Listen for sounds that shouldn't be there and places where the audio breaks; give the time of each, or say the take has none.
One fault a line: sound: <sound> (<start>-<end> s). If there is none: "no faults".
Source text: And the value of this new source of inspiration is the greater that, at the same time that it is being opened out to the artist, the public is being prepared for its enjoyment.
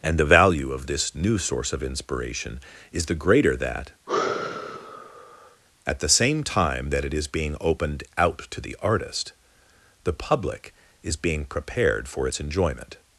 sound: sigh (4.1-5.6 s)